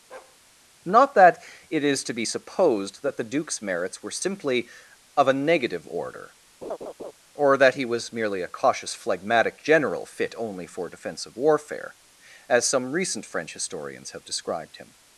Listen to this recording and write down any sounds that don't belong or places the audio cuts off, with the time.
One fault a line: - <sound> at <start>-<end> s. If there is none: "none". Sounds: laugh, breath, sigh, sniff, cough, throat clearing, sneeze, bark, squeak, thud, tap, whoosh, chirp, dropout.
- bark at 0.1-0.4 s
- laugh at 6.6-7.1 s